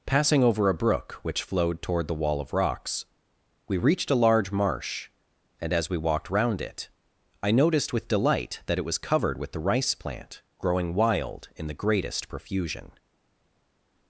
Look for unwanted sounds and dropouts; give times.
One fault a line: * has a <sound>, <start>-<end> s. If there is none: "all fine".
all fine